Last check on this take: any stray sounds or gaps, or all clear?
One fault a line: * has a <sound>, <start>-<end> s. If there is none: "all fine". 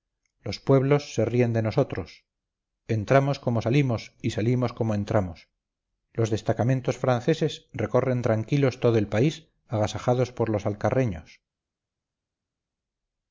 all fine